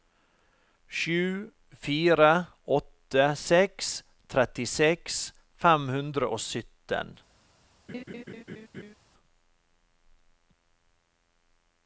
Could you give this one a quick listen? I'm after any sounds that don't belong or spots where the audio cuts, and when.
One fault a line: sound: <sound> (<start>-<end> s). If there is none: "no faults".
sound: laugh (7.9-8.9 s)